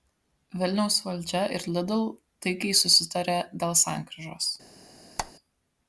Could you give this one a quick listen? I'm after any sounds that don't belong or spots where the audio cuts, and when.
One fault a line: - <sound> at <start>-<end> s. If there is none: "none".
- squeak at 5.2-5.3 s